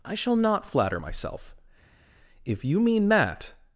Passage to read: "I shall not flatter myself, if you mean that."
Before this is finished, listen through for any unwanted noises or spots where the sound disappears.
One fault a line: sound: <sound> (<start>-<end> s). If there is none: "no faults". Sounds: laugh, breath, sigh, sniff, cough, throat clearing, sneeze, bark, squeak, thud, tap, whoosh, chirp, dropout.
no faults